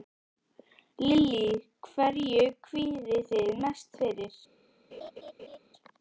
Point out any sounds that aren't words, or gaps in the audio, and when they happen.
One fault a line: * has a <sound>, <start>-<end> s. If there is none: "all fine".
* has a laugh, 4.9-5.6 s